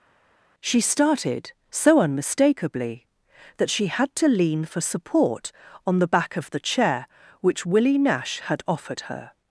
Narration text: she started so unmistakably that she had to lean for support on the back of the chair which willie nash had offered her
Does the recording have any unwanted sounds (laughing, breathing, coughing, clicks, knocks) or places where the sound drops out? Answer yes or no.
no